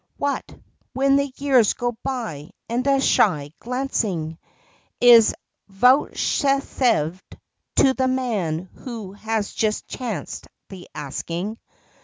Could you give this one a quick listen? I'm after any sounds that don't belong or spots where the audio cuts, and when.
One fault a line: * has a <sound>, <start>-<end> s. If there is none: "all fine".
all fine